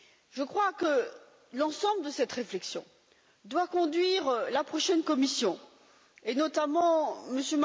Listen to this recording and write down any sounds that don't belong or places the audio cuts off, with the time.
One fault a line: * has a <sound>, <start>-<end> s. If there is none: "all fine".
all fine